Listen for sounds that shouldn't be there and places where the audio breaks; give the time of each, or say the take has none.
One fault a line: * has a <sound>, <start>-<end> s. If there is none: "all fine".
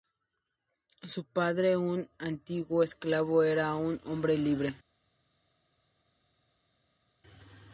all fine